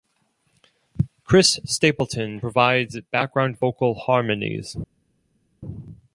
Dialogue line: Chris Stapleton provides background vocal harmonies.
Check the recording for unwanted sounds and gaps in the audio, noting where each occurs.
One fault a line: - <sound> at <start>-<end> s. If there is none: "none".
none